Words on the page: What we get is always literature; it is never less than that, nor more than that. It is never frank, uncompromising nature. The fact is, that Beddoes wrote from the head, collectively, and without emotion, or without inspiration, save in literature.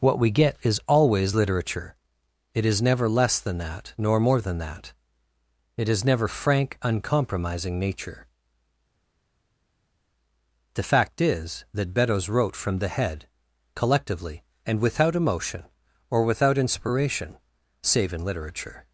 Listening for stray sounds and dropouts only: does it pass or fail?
pass